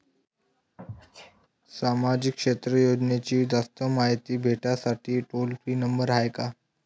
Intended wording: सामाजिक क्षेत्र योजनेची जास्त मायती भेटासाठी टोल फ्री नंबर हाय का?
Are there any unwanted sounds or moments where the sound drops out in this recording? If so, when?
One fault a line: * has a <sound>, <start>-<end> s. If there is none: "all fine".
* has a sneeze, 0.8-1.5 s